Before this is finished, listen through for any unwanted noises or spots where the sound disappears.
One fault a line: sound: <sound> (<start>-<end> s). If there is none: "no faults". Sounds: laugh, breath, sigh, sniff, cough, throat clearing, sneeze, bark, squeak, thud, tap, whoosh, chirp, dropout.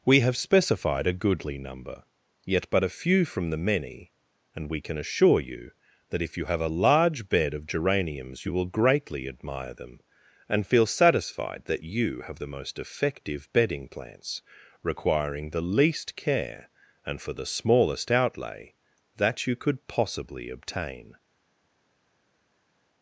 no faults